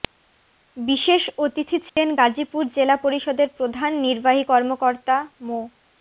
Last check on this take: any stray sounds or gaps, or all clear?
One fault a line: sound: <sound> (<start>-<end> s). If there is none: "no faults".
sound: dropout (1.9-2.0 s)